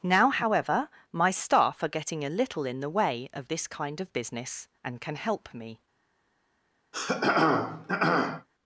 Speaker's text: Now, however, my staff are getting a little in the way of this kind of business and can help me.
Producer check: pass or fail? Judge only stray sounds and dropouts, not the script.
fail